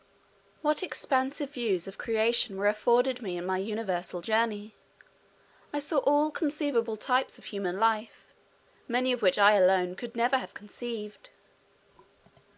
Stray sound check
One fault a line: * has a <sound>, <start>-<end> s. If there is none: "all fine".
all fine